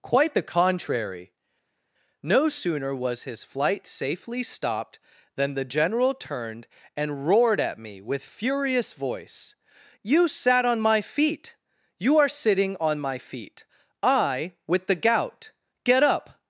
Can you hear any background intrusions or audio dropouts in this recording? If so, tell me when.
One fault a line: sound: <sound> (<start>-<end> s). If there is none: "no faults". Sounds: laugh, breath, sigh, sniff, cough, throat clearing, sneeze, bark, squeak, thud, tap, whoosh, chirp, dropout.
no faults